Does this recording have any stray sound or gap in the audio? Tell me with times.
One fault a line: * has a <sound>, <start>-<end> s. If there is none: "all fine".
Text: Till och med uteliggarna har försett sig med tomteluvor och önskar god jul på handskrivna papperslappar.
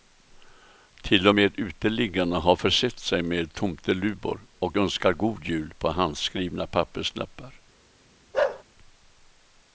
* has a bark, 8.3-8.6 s